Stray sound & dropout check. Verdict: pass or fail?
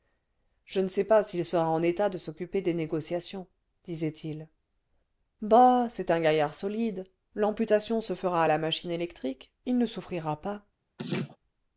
fail